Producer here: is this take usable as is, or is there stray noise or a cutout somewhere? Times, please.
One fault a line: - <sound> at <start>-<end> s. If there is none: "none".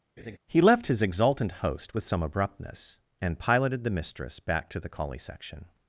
- laugh at 0.2-0.4 s